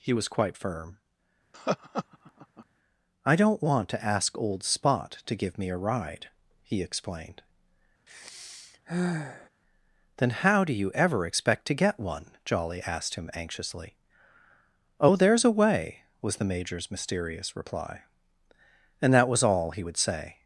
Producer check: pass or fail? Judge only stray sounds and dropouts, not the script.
fail